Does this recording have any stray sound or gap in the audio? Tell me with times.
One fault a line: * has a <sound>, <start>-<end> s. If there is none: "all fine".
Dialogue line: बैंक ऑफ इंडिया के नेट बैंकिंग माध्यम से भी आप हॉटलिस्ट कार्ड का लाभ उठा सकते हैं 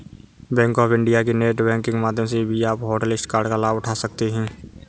all fine